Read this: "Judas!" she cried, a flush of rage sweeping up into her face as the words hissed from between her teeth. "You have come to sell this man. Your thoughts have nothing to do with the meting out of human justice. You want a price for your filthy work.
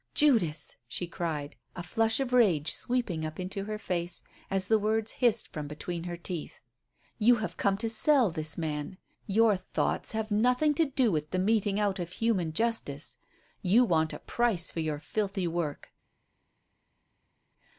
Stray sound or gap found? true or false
false